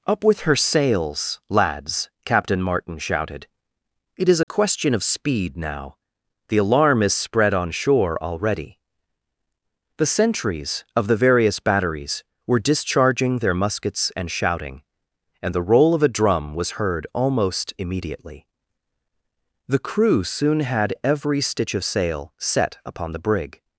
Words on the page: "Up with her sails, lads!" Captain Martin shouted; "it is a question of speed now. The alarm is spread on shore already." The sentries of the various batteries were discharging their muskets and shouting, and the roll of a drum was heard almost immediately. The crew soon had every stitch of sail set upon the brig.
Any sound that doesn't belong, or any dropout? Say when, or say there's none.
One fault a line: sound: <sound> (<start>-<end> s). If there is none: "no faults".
sound: dropout (4.4-4.5 s)